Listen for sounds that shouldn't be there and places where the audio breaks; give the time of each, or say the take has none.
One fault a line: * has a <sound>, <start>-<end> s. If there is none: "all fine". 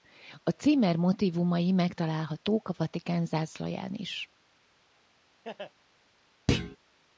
* has a laugh, 5.4-5.7 s
* has a thud, 6.5-6.8 s